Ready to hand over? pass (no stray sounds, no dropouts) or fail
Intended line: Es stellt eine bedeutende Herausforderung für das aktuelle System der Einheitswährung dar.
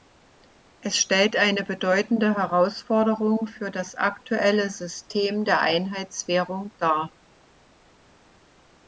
pass